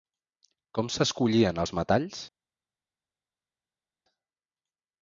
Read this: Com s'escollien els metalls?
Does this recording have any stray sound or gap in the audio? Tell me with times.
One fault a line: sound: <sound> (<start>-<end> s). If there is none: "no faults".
no faults